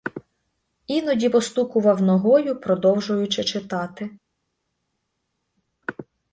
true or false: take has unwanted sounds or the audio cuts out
false